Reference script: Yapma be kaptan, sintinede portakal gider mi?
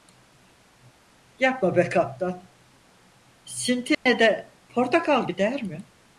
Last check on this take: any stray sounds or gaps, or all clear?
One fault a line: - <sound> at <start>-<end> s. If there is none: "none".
- dropout at 3.9-4.1 s